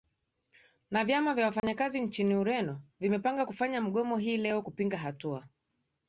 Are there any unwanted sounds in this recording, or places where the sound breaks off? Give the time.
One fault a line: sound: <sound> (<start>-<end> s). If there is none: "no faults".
sound: dropout (1.6-1.6 s)